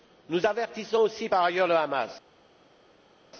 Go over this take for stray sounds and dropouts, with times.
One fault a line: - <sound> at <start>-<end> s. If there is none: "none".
none